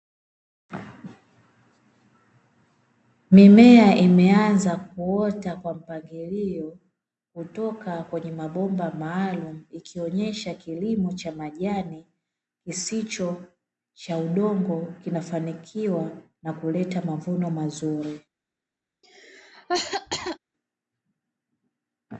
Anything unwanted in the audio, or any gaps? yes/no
yes